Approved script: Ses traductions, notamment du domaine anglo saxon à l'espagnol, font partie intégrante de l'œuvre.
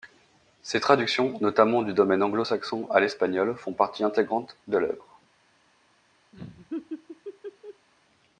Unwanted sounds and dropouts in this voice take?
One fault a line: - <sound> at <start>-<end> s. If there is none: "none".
- laugh at 6.3-7.9 s